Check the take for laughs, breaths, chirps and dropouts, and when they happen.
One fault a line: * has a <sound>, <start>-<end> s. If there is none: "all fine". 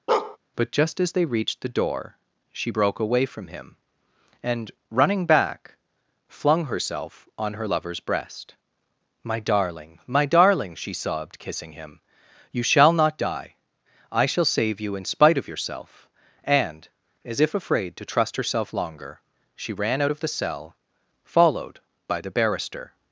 * has a bark, 0.1-0.4 s